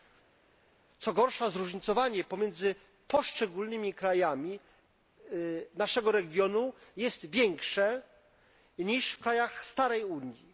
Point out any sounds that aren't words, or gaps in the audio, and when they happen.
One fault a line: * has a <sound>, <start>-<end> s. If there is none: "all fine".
all fine